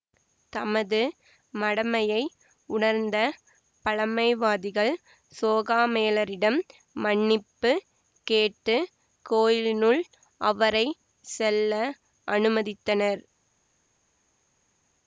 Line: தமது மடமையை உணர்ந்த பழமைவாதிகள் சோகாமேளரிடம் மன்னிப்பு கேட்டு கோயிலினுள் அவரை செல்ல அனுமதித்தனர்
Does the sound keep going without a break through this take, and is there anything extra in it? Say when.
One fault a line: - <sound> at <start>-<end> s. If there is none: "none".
none